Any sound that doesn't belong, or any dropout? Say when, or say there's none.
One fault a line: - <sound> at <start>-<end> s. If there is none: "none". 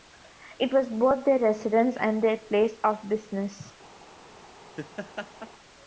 - laugh at 4.8-5.5 s